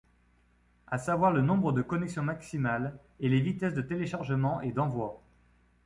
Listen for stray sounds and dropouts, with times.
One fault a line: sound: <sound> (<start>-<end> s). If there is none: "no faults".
no faults